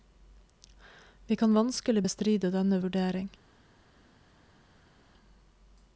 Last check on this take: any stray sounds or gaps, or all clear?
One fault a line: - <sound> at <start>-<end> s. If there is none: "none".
none